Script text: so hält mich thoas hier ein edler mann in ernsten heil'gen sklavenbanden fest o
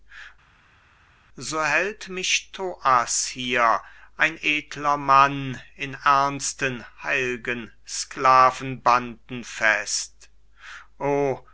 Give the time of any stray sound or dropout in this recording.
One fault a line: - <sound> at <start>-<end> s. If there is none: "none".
none